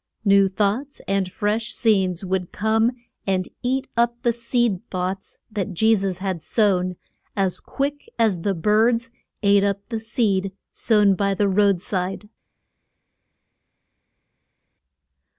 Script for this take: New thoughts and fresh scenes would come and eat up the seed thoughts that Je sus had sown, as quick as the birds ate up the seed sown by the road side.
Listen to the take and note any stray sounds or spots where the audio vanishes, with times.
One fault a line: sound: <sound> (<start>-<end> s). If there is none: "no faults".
no faults